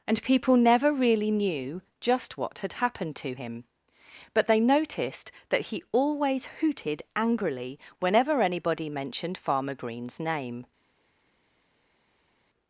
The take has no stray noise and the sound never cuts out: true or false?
true